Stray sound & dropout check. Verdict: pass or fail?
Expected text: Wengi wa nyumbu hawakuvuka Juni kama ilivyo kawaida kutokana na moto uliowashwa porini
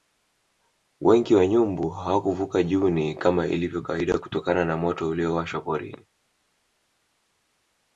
pass